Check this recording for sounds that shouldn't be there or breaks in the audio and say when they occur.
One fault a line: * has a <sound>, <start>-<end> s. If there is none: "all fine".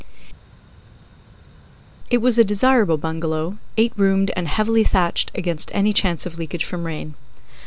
all fine